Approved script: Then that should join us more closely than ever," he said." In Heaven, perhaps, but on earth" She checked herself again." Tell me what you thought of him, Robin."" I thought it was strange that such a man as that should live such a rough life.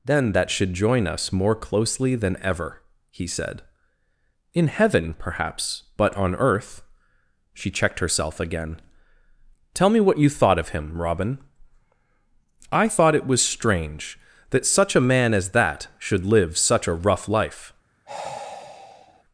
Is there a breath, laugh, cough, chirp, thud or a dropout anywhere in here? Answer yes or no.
yes